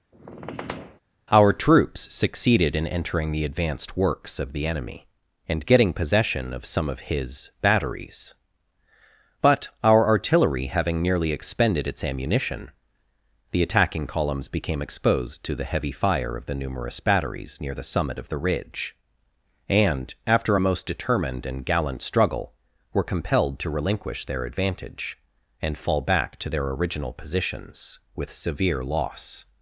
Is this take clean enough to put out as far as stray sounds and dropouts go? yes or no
no